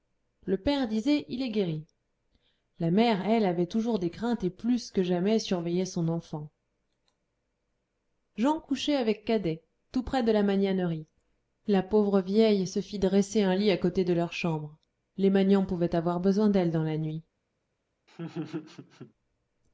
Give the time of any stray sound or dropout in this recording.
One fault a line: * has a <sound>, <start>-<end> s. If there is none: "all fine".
* has a laugh, 18.1-19.1 s